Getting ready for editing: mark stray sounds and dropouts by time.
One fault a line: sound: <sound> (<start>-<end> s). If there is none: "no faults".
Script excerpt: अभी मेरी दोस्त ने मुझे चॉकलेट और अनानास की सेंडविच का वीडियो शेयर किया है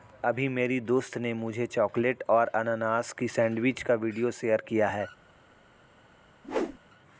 sound: whoosh (6.4-6.8 s)